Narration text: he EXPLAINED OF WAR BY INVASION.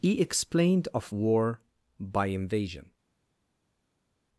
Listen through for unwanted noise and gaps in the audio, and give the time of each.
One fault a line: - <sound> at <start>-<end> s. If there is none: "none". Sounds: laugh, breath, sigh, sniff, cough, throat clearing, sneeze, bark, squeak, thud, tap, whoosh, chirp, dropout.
none